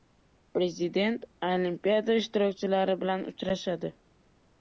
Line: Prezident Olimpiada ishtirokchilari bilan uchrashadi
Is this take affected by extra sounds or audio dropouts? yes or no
no